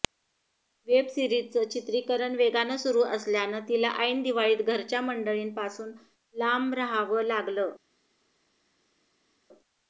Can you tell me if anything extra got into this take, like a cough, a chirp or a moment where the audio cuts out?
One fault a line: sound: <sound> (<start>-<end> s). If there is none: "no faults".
no faults